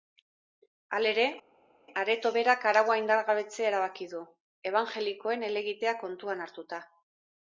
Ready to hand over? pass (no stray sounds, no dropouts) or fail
pass